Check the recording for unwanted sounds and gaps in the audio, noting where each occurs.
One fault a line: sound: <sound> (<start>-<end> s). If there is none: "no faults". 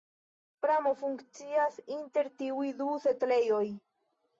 no faults